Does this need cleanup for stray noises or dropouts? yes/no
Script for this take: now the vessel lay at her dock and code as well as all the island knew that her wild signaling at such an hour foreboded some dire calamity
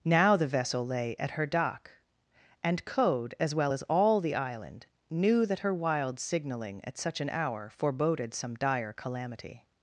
no